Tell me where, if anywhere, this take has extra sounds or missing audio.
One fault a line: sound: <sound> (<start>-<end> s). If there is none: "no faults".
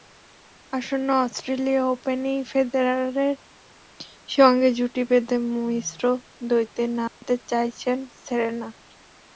sound: dropout (7.1-7.2 s)